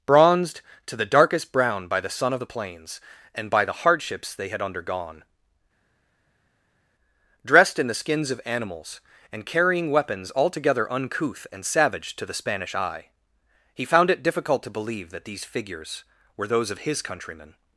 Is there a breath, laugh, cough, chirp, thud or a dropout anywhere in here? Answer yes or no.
no